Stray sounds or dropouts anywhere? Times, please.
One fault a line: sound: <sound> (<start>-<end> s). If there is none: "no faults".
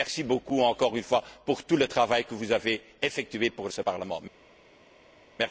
no faults